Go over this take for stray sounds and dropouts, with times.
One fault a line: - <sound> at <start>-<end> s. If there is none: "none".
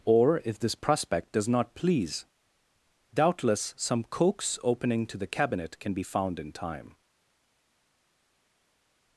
none